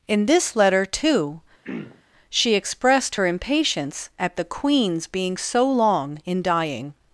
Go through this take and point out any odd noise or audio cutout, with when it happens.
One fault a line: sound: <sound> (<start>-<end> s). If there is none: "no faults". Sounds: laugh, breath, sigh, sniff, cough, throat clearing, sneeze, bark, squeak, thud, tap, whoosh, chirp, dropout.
sound: throat clearing (1.6-2.0 s)